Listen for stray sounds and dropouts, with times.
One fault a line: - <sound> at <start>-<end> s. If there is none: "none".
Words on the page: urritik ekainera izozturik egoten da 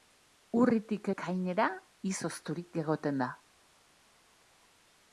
none